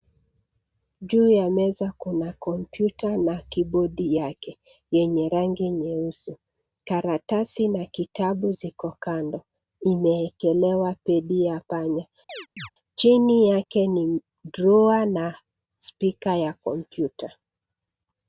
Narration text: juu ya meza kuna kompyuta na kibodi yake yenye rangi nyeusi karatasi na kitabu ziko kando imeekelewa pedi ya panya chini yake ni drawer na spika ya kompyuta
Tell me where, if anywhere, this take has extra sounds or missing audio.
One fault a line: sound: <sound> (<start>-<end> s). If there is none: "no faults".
sound: chirp (12.3-12.7 s)